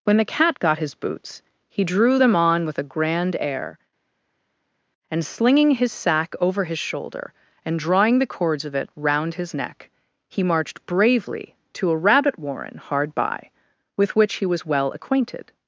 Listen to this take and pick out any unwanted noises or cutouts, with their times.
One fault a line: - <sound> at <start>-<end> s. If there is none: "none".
none